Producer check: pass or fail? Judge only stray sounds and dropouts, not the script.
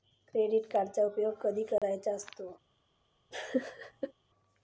fail